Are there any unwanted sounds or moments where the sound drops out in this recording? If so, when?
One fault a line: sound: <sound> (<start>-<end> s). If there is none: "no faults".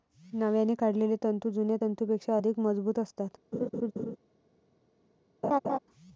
sound: laugh (3.5-4.2 s)
sound: laugh (5.4-5.8 s)